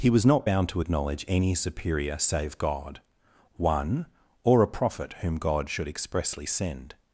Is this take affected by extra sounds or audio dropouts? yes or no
no